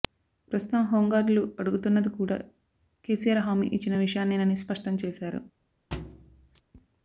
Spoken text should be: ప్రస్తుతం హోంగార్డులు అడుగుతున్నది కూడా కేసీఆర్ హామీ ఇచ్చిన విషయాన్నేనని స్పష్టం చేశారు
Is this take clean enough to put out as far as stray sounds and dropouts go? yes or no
no